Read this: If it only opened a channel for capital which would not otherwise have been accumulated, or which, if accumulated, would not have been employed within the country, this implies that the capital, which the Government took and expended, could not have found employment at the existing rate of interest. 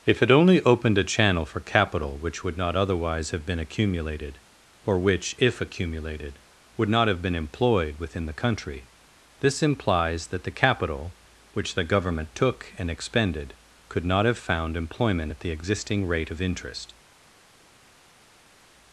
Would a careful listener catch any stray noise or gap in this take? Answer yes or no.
no